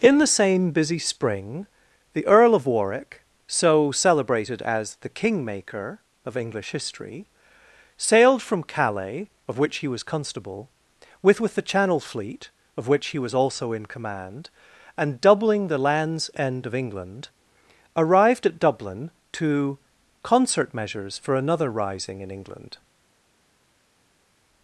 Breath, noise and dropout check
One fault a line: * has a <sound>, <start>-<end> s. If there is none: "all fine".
all fine